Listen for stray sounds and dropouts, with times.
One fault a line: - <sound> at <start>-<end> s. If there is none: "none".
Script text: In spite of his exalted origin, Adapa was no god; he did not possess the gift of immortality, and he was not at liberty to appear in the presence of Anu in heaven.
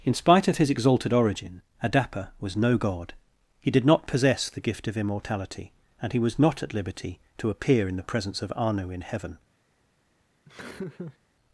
- laugh at 10.5-11.2 s